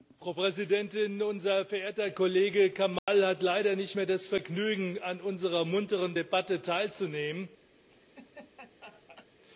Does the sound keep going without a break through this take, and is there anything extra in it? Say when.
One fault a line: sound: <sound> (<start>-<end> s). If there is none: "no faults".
sound: dropout (3.0-3.1 s)
sound: laugh (7.9-9.3 s)